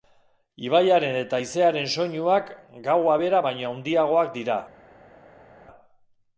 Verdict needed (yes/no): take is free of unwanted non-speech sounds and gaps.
yes